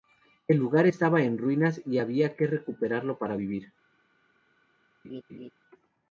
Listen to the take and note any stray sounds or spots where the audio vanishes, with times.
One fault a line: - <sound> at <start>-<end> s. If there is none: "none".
- laugh at 5.0-5.5 s